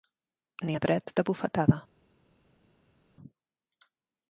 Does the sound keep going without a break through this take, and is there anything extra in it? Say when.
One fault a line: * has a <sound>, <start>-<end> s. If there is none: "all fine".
all fine